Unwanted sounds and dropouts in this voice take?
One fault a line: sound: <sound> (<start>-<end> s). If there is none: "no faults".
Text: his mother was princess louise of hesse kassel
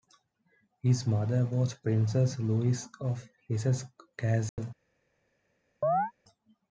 sound: dropout (4.5-4.6 s)
sound: chirp (5.8-6.1 s)